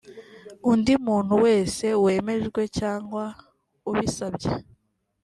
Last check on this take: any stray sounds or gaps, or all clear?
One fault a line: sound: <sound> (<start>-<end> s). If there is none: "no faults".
no faults